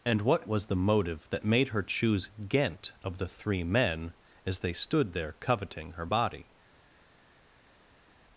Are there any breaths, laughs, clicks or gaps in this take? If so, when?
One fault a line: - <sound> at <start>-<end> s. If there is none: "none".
none